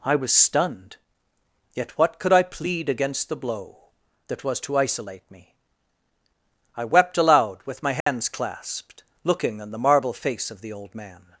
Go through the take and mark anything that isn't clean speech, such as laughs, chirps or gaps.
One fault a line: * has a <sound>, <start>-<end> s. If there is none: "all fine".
* has a dropout, 8.0-8.1 s